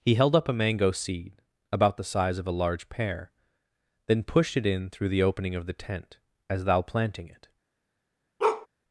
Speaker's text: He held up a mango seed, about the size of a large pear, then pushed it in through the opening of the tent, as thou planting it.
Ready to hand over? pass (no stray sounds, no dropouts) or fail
fail